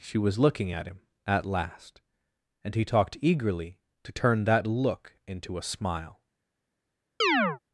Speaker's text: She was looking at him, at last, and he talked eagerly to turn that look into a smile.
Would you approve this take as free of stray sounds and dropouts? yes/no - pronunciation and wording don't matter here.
no